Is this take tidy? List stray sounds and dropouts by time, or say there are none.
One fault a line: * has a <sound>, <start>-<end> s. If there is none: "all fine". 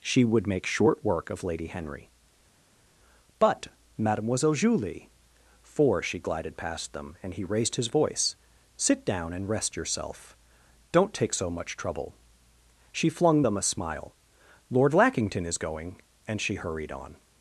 all fine